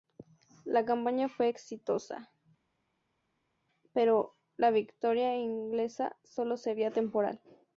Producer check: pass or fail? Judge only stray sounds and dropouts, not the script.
pass